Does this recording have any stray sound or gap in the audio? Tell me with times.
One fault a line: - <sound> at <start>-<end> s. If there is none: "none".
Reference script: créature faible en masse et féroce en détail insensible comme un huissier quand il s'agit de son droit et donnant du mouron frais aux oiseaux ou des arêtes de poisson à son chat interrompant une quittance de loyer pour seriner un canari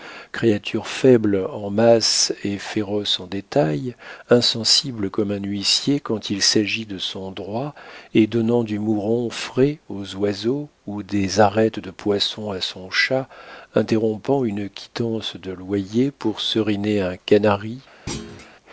- thud at 18.1-18.5 s